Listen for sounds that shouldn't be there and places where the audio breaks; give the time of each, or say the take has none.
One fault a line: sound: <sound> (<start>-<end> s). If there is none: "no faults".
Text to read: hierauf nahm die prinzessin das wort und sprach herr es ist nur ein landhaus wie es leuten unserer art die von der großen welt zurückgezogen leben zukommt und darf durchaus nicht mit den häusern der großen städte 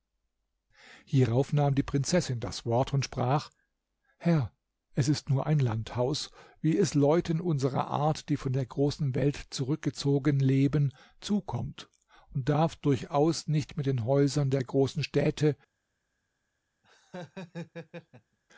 sound: laugh (16.8-18.4 s)